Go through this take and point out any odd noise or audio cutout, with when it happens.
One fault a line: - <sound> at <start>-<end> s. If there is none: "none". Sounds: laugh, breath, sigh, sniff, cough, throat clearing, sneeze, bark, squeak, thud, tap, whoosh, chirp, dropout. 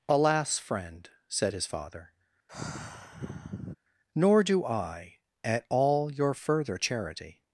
- sigh at 2.5-3.7 s